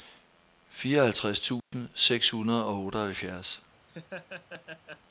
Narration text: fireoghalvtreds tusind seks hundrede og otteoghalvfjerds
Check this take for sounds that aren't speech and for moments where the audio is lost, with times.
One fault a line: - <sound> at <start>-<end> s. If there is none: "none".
- dropout at 1.6-1.7 s
- laugh at 3.9-5.0 s